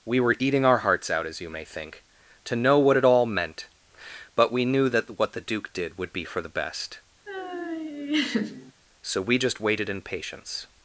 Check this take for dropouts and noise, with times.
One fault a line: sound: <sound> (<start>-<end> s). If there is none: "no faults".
sound: laugh (7.3-8.7 s)